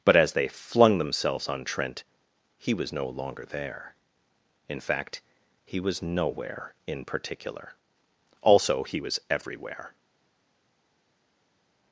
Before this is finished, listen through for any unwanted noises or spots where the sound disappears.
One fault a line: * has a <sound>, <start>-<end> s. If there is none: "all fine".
all fine